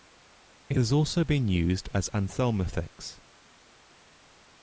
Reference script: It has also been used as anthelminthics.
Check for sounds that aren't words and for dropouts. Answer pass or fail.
pass